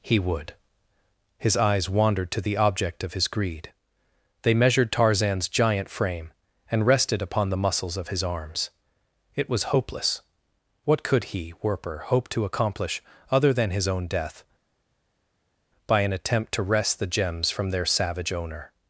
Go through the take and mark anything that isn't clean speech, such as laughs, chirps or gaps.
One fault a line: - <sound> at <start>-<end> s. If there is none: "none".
none